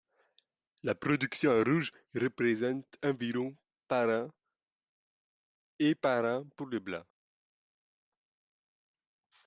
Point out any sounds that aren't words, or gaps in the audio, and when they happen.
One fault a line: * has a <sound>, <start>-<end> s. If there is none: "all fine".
all fine